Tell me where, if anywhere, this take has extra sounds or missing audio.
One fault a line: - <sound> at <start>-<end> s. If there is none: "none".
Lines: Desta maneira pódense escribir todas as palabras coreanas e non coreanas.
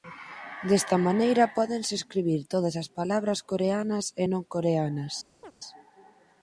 - chirp at 5.4-5.5 s